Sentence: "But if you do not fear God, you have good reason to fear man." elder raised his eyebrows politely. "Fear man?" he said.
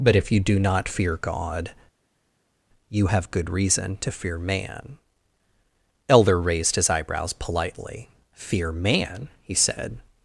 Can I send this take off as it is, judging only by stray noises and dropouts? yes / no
yes